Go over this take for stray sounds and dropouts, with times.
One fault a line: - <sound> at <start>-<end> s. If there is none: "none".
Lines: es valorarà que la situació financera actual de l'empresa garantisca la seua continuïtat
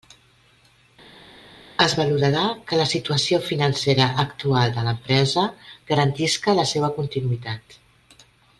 none